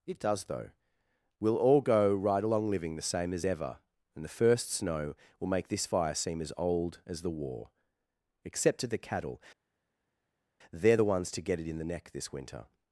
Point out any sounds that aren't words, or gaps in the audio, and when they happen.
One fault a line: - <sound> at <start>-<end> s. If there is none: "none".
none